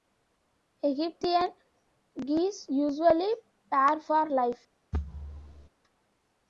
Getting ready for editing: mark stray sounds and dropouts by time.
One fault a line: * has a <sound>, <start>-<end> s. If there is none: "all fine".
* has a thud, 4.9-5.7 s